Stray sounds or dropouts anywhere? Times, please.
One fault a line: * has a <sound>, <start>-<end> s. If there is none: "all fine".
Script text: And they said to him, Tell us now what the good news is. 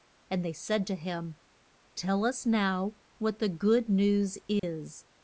* has a dropout, 4.6-4.6 s